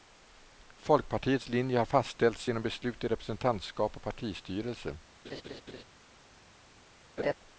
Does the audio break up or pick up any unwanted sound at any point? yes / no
yes